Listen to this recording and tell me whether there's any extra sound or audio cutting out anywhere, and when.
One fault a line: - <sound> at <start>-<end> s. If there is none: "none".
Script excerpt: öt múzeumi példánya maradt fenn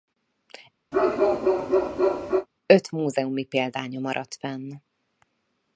- bark at 0.9-2.5 s